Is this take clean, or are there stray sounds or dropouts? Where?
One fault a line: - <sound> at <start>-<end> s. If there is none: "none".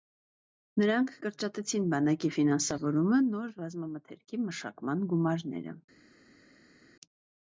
none